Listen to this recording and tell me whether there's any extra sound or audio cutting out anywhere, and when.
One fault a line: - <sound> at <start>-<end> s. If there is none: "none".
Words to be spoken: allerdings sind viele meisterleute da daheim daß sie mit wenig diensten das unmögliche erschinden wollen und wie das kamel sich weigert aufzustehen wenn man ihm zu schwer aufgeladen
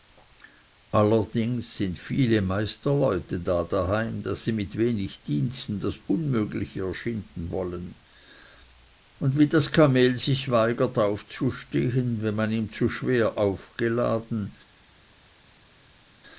none